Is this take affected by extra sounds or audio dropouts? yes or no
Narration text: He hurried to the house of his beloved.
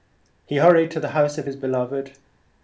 no